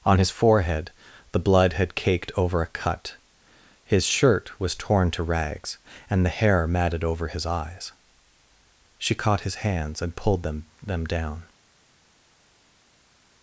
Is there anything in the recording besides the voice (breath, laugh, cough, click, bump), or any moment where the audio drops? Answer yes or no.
no